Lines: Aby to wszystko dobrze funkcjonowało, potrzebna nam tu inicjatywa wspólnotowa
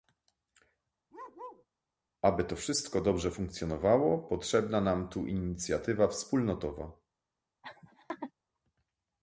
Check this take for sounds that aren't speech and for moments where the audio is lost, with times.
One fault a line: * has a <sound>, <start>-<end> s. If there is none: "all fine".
* has a bark, 1.1-1.7 s
* has a laugh, 7.6-8.3 s